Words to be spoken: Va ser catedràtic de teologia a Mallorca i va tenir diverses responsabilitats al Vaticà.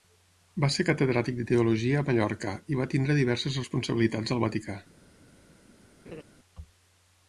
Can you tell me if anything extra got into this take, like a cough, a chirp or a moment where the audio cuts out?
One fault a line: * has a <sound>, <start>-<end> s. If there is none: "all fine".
* has a laugh, 6.0-6.2 s